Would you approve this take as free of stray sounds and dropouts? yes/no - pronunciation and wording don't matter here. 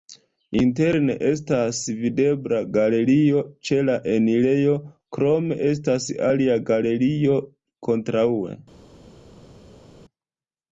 yes